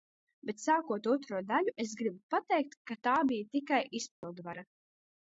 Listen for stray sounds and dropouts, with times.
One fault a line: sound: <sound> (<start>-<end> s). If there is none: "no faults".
sound: dropout (4.1-4.2 s)